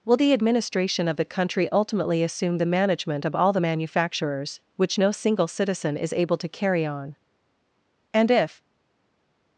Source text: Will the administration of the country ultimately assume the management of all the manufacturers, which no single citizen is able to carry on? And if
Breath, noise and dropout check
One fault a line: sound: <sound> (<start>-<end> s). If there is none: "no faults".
no faults